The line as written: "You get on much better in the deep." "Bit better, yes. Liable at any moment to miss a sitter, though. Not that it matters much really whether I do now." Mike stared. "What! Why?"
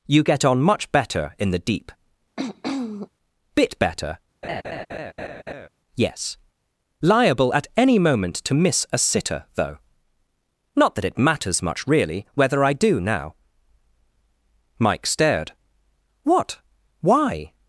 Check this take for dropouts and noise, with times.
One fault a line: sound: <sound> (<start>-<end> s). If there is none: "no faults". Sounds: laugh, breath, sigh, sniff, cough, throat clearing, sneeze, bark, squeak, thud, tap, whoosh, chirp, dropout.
sound: throat clearing (2.4-3.1 s)
sound: laugh (4.4-5.7 s)